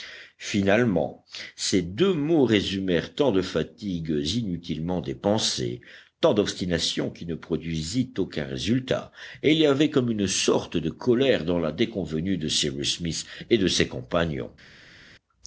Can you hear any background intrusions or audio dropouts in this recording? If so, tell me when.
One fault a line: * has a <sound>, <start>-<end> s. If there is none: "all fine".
all fine